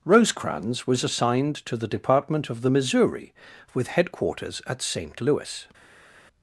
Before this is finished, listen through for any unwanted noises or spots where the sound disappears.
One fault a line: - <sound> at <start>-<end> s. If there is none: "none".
none